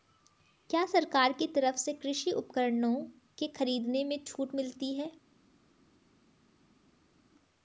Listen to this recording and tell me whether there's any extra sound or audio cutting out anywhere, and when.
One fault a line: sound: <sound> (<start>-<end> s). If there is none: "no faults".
no faults